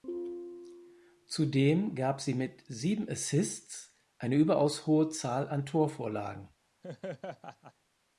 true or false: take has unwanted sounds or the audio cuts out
true